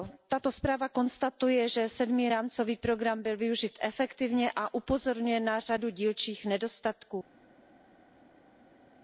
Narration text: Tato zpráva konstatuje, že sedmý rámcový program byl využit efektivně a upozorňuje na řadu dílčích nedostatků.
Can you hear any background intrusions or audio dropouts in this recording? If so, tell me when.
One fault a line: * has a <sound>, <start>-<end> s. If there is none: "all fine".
all fine